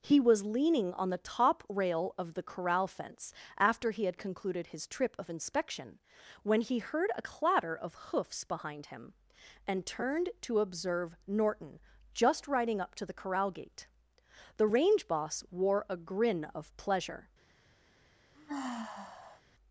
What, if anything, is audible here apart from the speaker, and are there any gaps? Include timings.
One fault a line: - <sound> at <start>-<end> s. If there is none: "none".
- sigh at 18.3-19.4 s